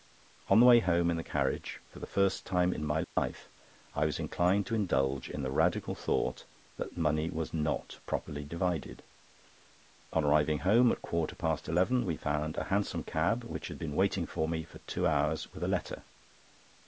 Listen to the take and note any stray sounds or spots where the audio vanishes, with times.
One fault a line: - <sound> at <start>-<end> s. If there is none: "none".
- dropout at 3.0-3.2 s